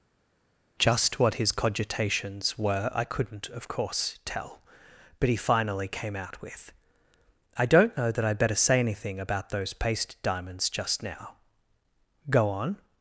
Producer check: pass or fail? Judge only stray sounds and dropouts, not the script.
pass